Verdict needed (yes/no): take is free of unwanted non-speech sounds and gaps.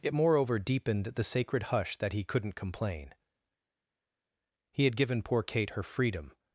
yes